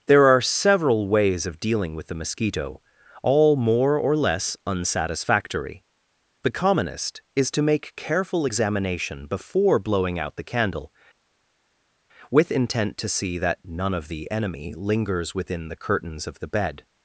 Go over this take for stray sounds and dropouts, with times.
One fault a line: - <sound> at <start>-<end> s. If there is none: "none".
none